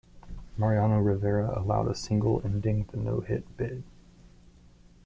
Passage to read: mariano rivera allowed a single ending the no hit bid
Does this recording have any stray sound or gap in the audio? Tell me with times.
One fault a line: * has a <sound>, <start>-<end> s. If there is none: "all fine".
all fine